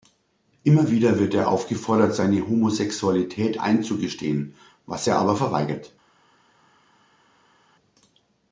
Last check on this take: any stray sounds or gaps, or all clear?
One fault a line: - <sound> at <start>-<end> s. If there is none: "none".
none